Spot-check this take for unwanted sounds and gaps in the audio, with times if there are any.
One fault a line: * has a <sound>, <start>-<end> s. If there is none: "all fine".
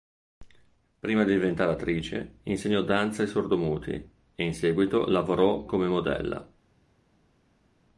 all fine